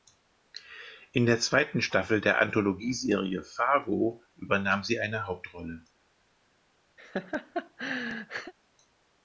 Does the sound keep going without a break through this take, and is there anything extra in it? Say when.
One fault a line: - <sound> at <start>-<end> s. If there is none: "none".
- laugh at 7.0-8.5 s